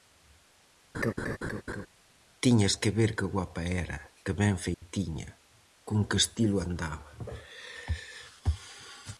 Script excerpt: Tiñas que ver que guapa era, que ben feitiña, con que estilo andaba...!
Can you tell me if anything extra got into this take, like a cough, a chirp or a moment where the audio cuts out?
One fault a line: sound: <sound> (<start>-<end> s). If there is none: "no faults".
sound: laugh (0.9-1.9 s)
sound: dropout (4.7-4.8 s)